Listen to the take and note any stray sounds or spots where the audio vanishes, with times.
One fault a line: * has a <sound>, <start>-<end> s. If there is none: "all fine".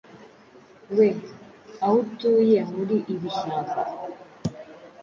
all fine